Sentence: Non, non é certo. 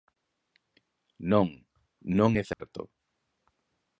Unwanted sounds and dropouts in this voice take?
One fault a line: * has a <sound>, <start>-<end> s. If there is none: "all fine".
* has a dropout, 2.5-2.6 s